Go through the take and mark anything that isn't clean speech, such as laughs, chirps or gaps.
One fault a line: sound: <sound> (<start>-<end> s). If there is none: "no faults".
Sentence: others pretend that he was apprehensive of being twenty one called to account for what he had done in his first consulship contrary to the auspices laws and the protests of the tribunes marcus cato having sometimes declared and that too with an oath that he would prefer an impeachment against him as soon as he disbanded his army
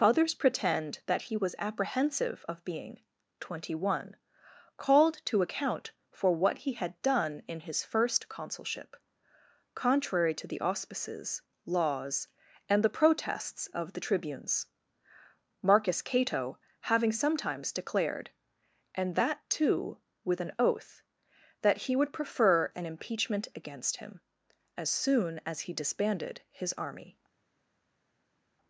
no faults